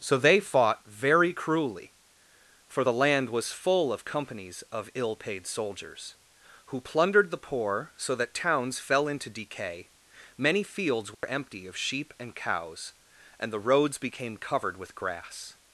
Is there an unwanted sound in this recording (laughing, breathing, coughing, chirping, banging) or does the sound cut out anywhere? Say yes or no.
yes